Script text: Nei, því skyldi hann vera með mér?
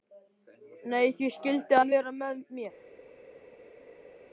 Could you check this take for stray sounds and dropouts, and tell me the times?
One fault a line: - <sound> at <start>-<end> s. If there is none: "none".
none